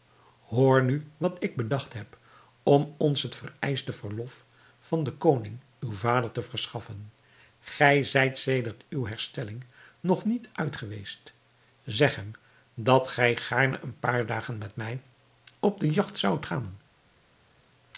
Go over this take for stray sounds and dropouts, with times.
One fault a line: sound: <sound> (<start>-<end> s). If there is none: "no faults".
no faults